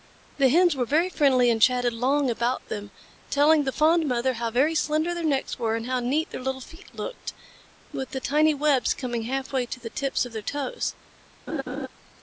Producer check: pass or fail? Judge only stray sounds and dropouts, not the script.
fail